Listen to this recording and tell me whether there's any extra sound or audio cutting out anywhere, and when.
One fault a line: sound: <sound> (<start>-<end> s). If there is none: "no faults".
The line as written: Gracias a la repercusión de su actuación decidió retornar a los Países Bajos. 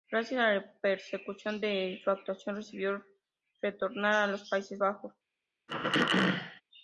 sound: throat clearing (5.7-6.6 s)